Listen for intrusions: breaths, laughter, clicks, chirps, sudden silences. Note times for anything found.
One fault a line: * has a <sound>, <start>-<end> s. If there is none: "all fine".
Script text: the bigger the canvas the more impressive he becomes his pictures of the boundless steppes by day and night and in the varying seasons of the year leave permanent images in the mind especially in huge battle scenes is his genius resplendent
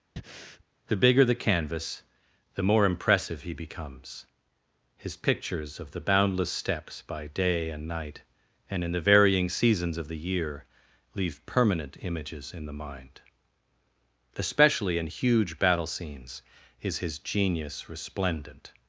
* has a breath, 0.2-0.6 s